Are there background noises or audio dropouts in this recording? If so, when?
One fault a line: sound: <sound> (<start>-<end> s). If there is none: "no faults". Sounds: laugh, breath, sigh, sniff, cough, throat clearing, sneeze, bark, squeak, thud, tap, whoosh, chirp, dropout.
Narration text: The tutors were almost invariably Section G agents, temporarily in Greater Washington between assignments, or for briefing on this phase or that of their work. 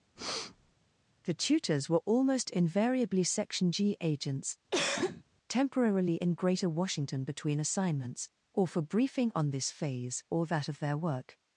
sound: breath (0.2-0.8 s)
sound: cough (4.7-5.2 s)